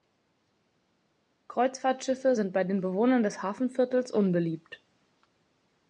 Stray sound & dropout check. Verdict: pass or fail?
pass